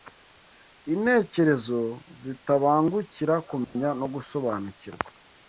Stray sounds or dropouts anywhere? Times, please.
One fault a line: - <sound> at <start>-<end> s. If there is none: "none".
- dropout at 3.6-3.8 s